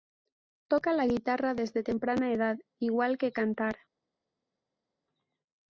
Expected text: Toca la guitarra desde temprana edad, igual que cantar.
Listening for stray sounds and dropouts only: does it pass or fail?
pass